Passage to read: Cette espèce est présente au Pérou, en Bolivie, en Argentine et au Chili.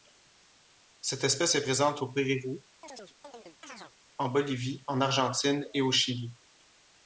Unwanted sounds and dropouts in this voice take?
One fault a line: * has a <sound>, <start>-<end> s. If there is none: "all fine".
* has a chirp, 2.8-3.9 s